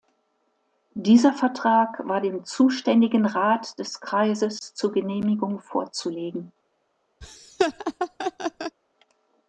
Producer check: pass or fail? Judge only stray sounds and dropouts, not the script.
fail